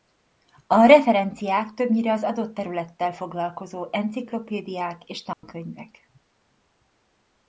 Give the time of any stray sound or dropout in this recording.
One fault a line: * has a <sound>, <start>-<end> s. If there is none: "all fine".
* has a dropout, 5.3-5.4 s